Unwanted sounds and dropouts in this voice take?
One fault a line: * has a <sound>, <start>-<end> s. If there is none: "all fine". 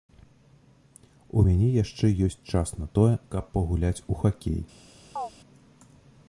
* has a chirp, 5.2-5.3 s